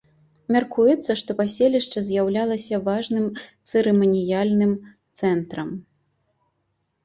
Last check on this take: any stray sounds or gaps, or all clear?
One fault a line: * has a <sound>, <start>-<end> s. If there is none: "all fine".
all fine